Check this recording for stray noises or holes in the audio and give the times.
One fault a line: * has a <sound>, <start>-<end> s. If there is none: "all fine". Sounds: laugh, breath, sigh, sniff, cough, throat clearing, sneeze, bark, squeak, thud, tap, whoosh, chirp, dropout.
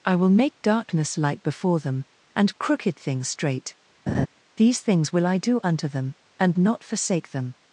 * has a laugh, 4.1-4.3 s